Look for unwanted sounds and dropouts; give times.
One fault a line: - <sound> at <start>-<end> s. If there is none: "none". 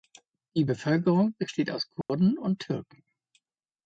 - dropout at 2.0-2.1 s